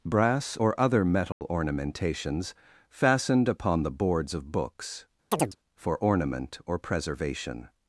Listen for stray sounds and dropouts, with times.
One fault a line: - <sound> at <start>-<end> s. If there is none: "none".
- dropout at 1.3-1.4 s
- chirp at 5.3-5.6 s